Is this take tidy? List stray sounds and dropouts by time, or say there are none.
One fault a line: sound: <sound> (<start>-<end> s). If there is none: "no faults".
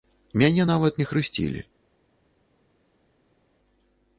no faults